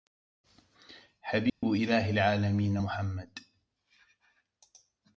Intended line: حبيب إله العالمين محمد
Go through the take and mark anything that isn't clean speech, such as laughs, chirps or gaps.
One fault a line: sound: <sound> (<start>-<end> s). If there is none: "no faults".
sound: dropout (1.5-1.6 s)